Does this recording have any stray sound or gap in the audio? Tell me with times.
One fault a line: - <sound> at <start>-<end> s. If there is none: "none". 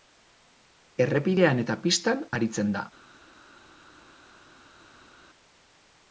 none